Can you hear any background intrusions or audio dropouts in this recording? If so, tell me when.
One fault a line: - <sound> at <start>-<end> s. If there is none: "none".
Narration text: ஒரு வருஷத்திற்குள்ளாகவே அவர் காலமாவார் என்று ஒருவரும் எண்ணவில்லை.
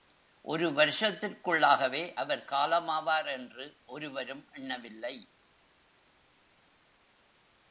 none